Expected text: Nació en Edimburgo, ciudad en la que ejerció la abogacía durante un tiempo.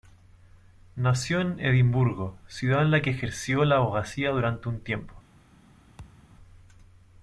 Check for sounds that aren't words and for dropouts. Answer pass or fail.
fail